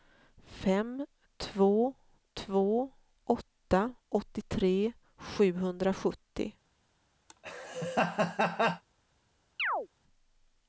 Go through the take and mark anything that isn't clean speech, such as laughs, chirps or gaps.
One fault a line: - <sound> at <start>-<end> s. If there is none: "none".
- laugh at 7.3-8.8 s
- chirp at 9.6-9.9 s